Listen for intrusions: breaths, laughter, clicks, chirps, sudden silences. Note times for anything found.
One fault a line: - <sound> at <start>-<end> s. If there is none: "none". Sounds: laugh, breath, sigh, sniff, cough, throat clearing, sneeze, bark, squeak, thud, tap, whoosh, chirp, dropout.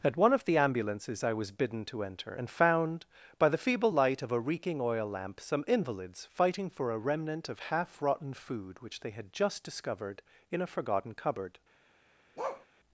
- bark at 12.4-12.7 s